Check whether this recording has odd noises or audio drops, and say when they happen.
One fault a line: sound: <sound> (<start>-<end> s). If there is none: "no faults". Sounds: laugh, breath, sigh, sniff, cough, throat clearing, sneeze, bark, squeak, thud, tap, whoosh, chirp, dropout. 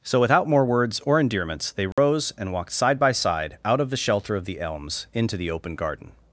sound: dropout (1.9-2.0 s)